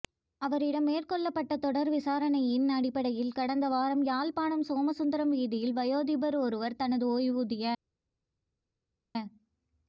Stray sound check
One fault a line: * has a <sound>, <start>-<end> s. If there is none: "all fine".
all fine